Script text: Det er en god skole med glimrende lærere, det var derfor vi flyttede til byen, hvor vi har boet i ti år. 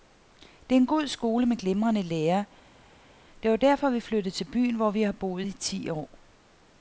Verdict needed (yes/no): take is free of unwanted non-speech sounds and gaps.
yes